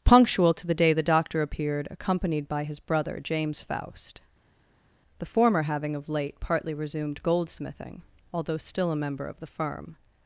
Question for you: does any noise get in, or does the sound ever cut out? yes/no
no